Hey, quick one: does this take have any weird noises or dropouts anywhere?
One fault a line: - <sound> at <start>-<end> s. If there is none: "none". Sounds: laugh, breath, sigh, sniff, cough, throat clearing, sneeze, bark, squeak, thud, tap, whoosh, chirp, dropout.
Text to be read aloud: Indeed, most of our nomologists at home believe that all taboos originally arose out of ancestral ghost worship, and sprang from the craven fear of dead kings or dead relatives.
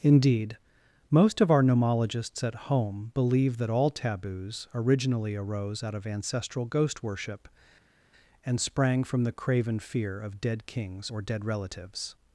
none